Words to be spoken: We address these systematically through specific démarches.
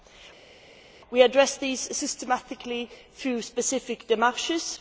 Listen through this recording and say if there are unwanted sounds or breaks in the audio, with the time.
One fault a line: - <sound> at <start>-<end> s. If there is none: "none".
none